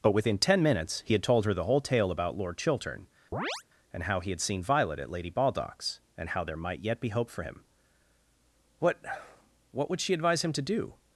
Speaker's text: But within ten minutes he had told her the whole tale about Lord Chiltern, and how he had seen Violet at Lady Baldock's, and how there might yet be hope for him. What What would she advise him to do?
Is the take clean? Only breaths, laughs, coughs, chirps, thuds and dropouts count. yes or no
no